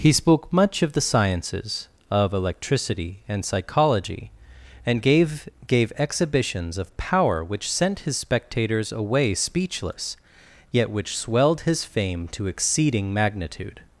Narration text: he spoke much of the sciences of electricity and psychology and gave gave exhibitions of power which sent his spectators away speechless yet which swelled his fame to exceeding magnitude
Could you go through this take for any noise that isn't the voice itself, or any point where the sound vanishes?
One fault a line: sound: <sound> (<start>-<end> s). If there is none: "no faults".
no faults